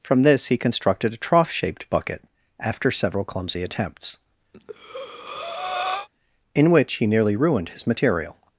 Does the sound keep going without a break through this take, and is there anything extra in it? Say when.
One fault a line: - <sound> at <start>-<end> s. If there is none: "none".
- breath at 4.5-6.1 s